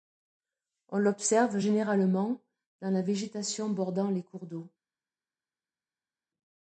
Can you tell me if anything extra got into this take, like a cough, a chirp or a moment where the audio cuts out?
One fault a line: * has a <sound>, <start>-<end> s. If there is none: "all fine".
all fine